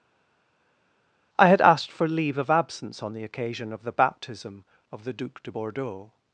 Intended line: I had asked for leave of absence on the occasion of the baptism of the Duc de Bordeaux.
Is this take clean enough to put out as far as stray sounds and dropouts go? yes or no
yes